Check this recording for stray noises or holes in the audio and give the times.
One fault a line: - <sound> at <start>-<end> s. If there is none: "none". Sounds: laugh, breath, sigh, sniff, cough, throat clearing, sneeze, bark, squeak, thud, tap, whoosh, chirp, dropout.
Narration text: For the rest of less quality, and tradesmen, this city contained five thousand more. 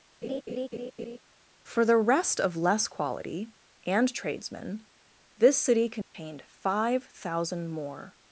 - laugh at 0.2-1.2 s
- dropout at 6.0-6.1 s